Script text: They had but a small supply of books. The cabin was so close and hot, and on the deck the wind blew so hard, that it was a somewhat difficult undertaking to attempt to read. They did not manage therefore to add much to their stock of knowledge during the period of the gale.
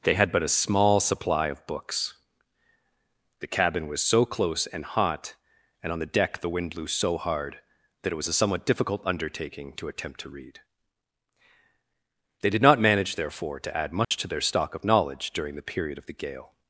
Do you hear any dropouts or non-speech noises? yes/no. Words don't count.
yes